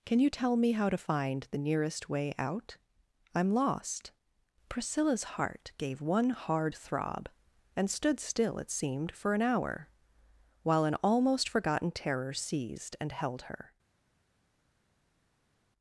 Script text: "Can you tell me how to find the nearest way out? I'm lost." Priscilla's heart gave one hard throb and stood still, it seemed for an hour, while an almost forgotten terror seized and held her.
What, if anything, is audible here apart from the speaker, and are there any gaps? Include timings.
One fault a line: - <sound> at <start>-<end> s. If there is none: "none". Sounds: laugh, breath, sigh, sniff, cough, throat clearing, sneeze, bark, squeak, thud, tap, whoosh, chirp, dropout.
none